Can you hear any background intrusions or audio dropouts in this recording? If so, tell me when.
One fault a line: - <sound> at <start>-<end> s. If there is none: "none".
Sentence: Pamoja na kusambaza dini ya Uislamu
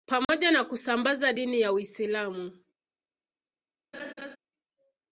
- dropout at 0.2-0.3 s
- laugh at 3.9-4.4 s